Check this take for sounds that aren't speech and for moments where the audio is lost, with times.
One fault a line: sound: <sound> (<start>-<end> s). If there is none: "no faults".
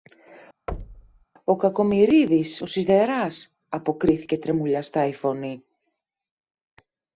sound: thud (0.7-1.2 s)